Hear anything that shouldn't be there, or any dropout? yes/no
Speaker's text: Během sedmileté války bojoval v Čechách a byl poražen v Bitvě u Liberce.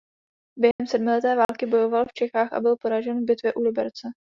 yes